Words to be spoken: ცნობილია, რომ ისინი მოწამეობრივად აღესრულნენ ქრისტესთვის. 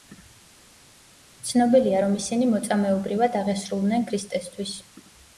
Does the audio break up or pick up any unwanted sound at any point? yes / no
no